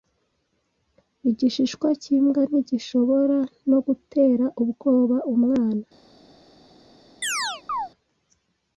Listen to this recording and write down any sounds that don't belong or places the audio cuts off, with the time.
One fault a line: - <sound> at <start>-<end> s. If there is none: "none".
- chirp at 7.2-7.9 s